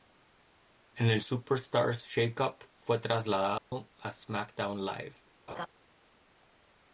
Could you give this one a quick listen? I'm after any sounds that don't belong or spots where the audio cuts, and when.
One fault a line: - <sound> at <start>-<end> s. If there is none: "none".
- dropout at 3.6-3.7 s
- laugh at 5.5-5.7 s